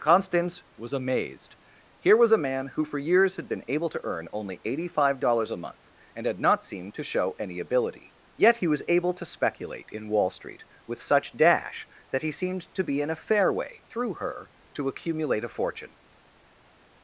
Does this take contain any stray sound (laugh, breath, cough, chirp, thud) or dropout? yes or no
no